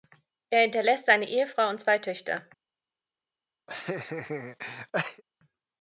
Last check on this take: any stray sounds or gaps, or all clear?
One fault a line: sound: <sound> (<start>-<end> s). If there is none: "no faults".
sound: laugh (3.7-5.2 s)